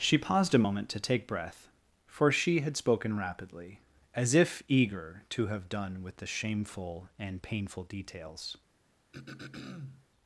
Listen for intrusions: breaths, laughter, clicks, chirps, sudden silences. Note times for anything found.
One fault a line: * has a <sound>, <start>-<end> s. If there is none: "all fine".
* has a throat clearing, 9.1-10.1 s